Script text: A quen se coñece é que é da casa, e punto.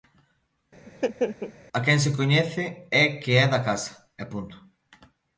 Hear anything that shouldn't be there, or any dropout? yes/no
yes